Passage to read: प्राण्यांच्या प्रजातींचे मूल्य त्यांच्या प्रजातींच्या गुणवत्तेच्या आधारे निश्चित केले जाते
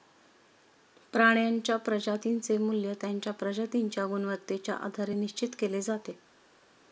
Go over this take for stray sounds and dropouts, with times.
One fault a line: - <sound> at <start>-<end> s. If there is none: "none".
none